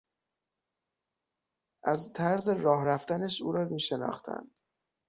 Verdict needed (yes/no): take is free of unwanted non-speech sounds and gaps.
yes